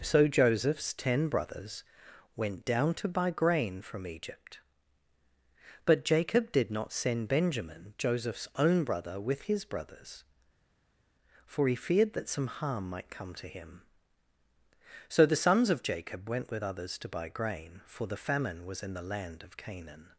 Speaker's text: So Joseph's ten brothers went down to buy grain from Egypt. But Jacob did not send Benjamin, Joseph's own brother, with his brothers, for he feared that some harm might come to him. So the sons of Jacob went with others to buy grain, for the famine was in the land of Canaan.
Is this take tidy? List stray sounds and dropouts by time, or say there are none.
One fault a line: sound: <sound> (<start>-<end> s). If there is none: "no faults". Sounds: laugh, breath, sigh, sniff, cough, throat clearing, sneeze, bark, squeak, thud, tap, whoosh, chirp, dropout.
no faults